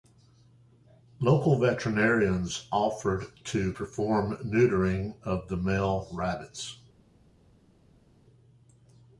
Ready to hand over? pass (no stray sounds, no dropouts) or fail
pass